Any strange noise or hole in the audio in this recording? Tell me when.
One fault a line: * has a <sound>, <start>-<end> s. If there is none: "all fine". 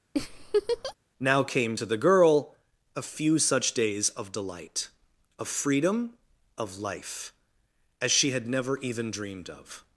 * has a laugh, 0.1-0.9 s